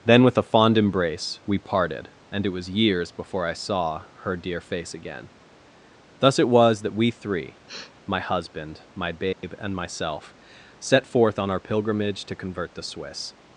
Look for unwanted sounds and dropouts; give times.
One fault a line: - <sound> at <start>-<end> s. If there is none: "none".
- sniff at 7.7-7.9 s
- dropout at 9.3-9.4 s